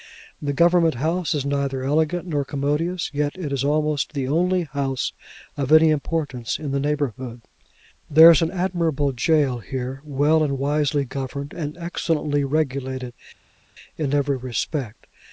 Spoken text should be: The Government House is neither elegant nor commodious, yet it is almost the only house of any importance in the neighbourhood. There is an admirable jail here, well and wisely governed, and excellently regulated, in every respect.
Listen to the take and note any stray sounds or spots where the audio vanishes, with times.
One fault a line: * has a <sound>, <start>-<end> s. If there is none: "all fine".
all fine